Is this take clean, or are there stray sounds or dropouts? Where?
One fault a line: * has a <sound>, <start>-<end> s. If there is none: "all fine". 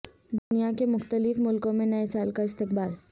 * has a dropout, 0.4-0.5 s